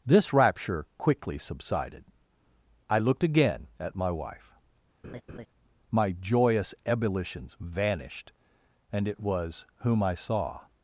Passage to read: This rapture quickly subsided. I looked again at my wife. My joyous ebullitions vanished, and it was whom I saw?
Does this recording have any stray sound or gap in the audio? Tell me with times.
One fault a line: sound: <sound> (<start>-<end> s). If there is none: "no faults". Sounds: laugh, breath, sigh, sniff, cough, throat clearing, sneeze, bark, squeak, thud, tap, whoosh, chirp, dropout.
sound: laugh (5.0-5.5 s)